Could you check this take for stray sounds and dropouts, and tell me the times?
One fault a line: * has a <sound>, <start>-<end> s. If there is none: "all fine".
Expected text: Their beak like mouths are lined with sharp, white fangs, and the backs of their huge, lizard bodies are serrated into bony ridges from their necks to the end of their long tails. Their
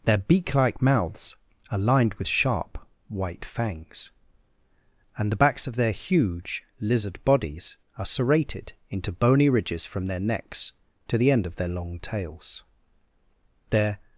all fine